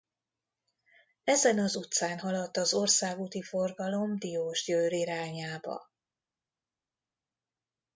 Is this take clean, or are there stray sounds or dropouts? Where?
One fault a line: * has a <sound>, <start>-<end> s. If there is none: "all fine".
all fine